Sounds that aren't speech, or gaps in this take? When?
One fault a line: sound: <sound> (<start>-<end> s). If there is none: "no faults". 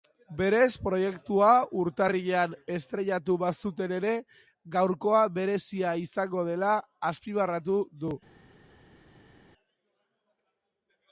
no faults